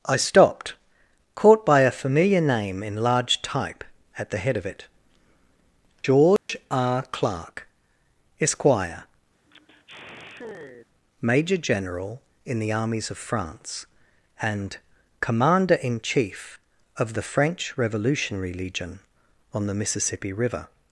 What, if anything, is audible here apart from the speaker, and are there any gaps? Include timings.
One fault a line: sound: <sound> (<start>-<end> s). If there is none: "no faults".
sound: dropout (6.4-6.5 s)
sound: sigh (9.5-10.9 s)